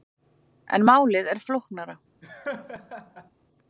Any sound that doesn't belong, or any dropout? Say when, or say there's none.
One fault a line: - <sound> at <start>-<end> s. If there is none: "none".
- laugh at 2.2-3.3 s